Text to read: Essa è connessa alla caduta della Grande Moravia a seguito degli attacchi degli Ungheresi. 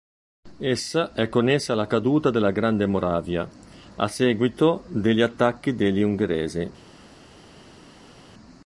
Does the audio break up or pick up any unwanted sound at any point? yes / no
no